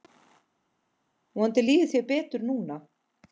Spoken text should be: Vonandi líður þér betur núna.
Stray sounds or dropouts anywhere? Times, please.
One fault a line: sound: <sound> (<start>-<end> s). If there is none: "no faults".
no faults